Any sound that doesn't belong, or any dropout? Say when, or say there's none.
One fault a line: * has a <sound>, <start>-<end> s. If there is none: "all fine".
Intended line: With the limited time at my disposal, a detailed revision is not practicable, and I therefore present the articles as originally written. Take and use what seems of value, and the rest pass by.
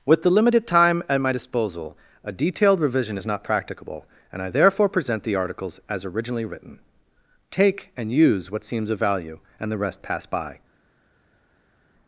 all fine